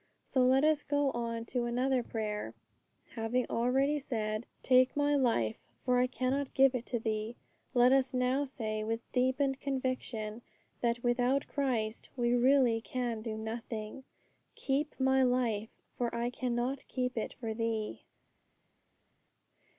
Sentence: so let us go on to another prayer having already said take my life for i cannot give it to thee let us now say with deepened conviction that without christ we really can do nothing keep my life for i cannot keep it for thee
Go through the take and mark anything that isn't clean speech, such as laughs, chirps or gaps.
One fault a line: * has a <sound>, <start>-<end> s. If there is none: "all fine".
all fine